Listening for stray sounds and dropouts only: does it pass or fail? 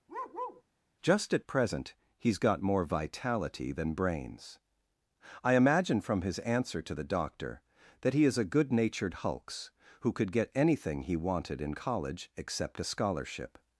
fail